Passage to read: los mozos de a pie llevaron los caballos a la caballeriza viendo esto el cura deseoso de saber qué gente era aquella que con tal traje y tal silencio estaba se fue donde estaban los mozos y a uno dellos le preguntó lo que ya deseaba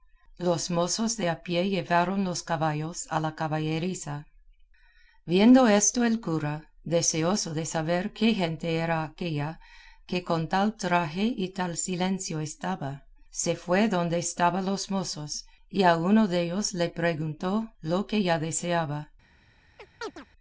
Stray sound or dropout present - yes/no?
yes